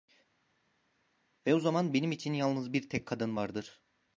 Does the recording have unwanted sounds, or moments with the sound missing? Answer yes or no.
no